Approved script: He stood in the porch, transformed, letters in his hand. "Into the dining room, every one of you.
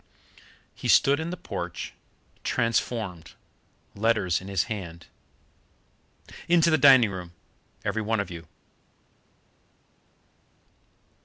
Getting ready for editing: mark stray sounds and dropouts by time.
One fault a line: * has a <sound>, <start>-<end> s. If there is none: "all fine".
all fine